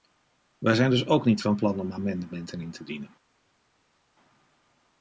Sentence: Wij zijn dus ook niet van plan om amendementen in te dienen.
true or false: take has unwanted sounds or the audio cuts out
false